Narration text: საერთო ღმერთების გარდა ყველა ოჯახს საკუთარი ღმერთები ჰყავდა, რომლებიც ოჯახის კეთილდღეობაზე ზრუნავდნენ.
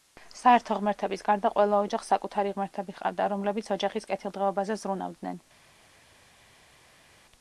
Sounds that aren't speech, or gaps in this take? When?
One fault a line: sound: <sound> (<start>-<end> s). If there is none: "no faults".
no faults